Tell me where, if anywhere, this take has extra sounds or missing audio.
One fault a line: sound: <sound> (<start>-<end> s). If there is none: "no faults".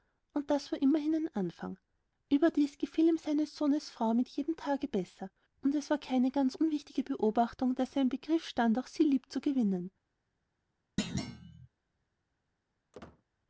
sound: thud (11.0-11.7 s)
sound: squeak (12.9-13.2 s)